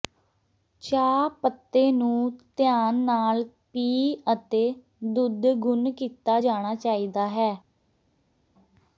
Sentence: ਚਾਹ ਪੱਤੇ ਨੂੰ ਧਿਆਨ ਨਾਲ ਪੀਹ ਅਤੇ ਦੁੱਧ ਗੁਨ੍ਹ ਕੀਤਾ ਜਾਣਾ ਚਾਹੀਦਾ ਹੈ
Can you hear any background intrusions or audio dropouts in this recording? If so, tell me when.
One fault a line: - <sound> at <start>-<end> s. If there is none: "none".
none